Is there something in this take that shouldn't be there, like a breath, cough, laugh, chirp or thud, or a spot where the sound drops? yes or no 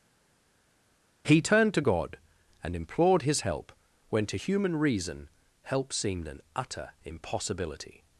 no